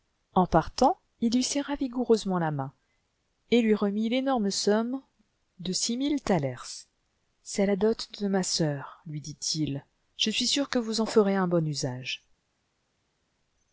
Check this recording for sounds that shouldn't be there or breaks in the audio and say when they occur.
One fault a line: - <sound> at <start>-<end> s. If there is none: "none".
none